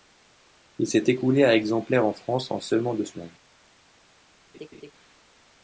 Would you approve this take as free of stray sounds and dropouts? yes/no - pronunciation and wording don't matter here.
no